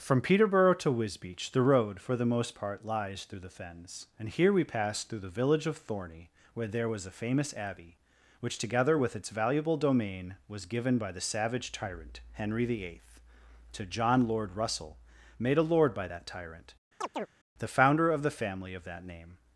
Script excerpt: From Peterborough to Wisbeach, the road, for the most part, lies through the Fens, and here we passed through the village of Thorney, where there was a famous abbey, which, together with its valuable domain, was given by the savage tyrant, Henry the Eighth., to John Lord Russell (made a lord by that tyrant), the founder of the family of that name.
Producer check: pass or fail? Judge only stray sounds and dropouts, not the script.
fail